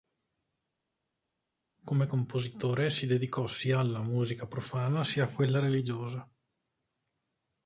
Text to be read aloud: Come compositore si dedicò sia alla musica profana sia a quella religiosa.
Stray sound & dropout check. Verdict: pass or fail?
pass